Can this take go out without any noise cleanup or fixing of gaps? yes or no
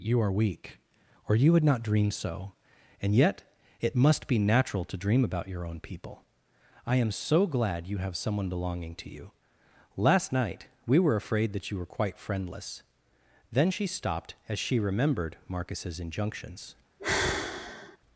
no